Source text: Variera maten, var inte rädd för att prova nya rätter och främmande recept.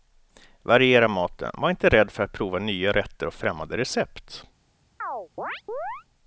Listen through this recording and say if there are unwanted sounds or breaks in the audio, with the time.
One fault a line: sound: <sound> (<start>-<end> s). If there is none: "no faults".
sound: chirp (5.0-6.0 s)